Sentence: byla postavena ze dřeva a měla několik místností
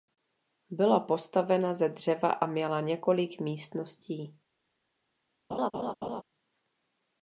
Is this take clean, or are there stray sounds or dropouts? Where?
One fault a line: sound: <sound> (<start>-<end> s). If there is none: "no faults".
sound: laugh (5.5-6.2 s)